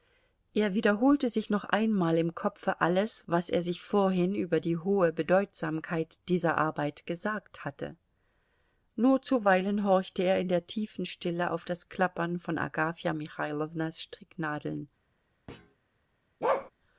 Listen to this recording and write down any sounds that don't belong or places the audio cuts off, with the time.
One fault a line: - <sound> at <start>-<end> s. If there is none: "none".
- thud at 15.5-15.8 s
- bark at 16.4-16.7 s